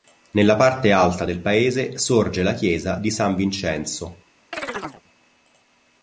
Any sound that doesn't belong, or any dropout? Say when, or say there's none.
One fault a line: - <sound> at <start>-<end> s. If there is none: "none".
- chirp at 4.5-5.0 s